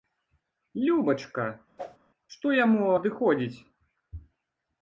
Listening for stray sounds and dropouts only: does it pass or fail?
fail